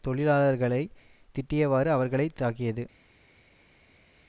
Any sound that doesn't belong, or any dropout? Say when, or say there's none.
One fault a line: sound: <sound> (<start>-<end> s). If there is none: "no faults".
no faults